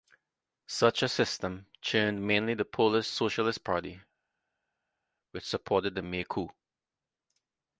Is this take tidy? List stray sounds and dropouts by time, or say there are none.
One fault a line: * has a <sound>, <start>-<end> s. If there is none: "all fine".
all fine